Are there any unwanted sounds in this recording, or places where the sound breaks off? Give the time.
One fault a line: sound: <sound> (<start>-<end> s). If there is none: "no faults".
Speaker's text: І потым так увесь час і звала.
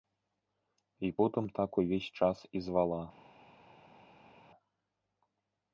no faults